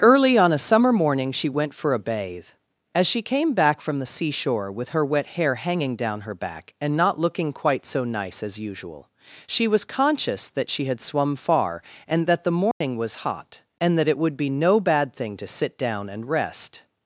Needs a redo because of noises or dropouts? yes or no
yes